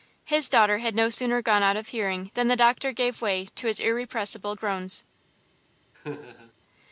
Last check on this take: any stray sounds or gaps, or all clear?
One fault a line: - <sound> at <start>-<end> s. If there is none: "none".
- laugh at 5.9-6.5 s